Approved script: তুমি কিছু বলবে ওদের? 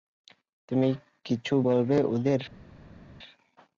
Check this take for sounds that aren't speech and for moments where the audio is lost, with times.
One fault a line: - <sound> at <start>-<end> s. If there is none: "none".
none